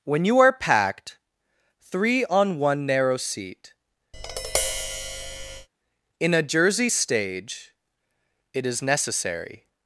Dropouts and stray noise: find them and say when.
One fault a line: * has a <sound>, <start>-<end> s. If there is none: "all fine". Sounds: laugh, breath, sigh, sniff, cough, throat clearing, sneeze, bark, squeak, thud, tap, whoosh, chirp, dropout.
* has a tap, 4.1-5.7 s